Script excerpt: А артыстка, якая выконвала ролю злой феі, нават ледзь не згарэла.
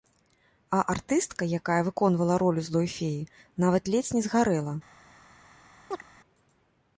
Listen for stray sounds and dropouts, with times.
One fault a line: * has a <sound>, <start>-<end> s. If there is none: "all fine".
* has a chirp, 5.9-6.0 s